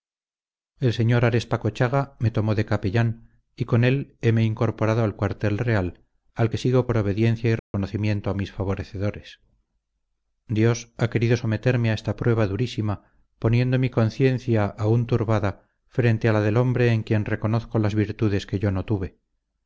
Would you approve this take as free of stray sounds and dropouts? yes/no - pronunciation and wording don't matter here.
no